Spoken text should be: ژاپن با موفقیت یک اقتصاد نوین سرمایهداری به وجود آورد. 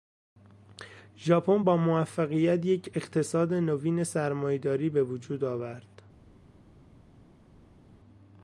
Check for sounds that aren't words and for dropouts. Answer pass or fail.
pass